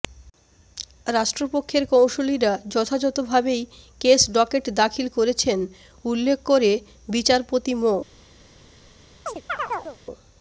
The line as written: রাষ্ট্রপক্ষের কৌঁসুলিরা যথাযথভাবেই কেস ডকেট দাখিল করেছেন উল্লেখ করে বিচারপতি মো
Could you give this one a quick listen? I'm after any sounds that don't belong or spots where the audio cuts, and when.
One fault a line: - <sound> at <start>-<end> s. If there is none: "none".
- chirp at 9.3-10.0 s